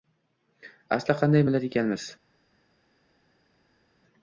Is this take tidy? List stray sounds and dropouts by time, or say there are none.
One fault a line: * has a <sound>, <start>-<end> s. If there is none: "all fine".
all fine